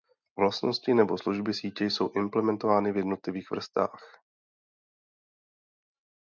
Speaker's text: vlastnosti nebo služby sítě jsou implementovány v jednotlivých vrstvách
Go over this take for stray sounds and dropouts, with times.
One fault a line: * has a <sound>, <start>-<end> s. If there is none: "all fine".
all fine